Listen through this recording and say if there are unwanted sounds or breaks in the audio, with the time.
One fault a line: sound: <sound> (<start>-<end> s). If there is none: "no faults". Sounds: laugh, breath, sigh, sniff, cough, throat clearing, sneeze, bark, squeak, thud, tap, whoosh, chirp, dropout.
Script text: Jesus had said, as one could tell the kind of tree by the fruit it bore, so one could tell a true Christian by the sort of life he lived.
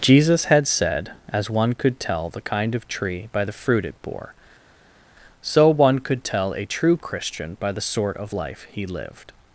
no faults